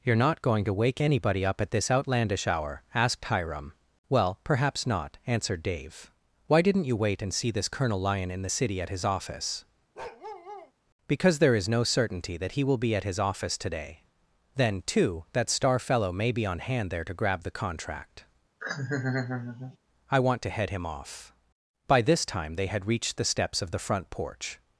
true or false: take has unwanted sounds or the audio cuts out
true